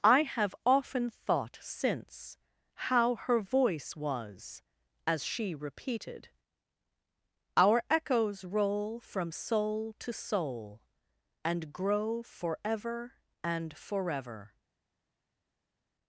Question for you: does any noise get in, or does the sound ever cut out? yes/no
no